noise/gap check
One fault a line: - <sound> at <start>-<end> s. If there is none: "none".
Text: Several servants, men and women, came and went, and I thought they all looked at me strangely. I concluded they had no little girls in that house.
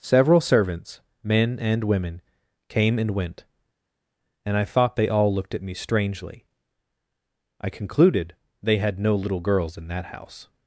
none